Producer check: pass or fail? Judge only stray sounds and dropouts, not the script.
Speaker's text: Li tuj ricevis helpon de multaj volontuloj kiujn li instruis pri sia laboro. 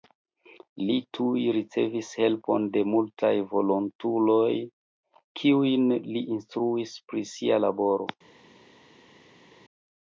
pass